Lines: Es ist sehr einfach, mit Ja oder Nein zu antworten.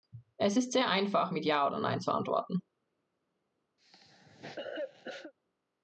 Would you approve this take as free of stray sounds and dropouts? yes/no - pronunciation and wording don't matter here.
no